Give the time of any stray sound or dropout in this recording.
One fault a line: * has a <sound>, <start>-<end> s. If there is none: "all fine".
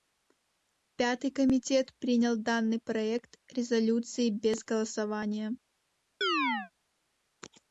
* has a chirp, 6.2-6.7 s